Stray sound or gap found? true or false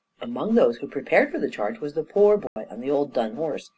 true